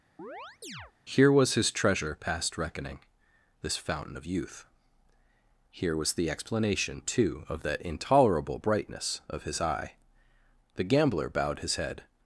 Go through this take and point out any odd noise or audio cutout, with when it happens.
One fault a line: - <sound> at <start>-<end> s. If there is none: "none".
- chirp at 0.2-0.9 s